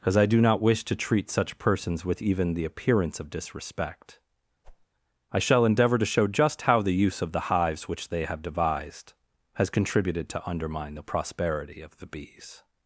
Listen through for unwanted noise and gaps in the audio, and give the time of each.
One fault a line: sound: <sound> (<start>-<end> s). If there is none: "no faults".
sound: whoosh (4.6-4.9 s)